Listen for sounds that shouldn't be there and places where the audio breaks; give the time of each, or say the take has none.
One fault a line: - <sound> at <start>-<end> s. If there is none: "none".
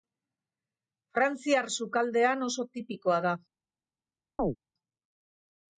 - chirp at 4.4-4.6 s